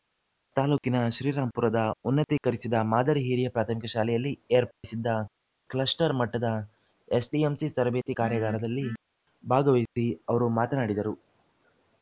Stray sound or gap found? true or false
true